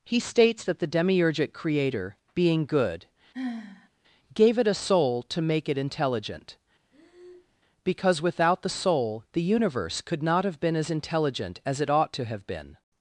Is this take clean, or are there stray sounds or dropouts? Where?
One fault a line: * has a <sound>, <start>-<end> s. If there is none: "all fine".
* has a sigh, 3.3-3.9 s
* has a breath, 6.9-7.6 s